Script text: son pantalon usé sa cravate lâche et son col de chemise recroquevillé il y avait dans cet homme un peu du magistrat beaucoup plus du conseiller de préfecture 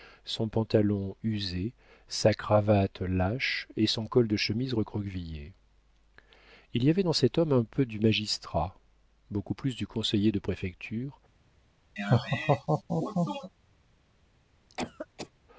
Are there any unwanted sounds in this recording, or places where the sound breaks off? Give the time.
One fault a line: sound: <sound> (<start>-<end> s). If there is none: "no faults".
sound: laugh (12.0-13.5 s)
sound: cough (14.7-15.3 s)